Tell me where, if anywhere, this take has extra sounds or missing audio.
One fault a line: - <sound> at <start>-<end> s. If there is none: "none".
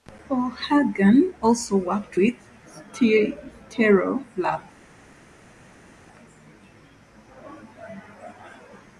none